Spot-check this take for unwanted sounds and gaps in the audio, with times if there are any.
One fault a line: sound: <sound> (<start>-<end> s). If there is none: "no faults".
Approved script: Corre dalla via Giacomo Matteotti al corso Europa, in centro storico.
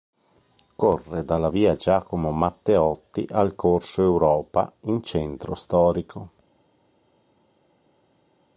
no faults